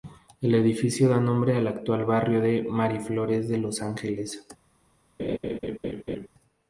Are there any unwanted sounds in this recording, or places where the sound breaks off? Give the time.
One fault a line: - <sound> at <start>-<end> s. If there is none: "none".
- laugh at 5.2-6.3 s